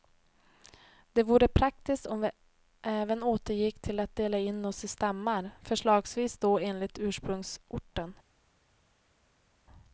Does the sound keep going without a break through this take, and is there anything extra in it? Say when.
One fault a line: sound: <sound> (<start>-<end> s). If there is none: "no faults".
no faults